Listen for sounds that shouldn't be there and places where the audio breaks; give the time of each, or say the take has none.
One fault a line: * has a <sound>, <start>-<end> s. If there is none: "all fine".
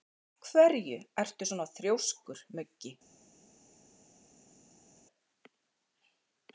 all fine